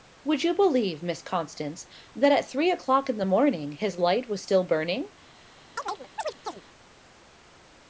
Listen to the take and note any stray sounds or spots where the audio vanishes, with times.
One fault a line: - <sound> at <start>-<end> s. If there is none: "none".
- chirp at 5.8-6.6 s